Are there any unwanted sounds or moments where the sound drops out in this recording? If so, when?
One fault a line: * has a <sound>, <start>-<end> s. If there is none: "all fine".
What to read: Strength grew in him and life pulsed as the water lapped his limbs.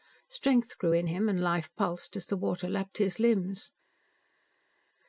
all fine